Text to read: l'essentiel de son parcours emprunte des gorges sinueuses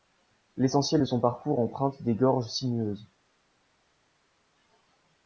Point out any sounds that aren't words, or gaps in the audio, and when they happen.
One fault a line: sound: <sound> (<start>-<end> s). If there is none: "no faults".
no faults